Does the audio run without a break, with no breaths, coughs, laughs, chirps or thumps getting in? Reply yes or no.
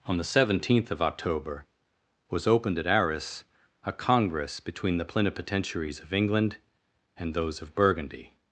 yes